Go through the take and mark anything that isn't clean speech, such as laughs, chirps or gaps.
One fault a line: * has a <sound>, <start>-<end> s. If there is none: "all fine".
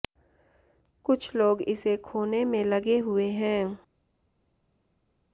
all fine